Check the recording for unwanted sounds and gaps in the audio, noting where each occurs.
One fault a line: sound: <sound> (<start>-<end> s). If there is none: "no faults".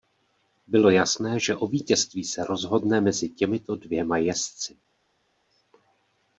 no faults